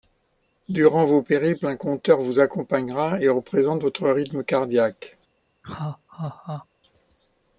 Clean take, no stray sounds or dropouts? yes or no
no